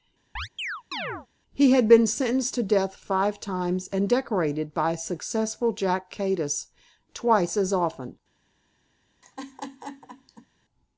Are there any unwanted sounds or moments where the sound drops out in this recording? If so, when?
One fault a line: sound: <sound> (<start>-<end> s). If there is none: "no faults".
sound: chirp (0.4-1.3 s)
sound: laugh (9.2-10.5 s)